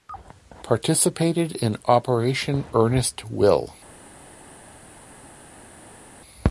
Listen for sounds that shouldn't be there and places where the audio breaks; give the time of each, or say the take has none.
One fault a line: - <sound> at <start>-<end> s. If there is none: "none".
none